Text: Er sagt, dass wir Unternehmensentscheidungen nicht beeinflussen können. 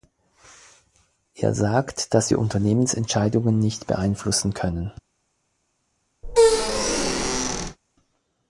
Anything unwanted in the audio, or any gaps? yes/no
yes